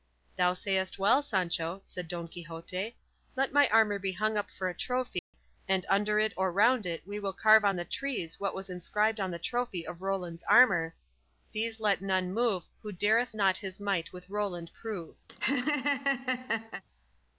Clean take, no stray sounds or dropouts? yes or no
no